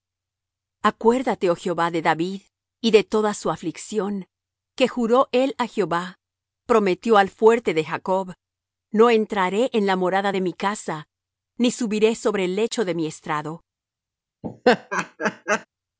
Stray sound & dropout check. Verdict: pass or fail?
fail